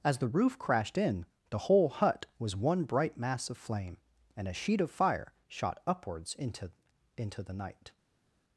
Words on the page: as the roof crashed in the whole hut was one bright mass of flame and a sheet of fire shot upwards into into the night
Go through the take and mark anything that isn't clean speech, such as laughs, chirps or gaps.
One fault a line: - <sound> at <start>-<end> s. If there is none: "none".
none